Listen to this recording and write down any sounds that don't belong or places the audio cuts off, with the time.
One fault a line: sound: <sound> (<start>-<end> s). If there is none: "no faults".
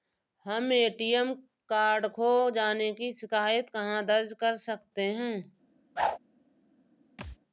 sound: whoosh (6.0-6.2 s)
sound: thud (7.2-7.4 s)